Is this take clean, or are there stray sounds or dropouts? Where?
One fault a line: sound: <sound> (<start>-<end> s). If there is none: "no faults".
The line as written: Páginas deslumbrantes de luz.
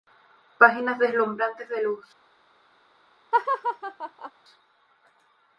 sound: laugh (3.3-4.3 s)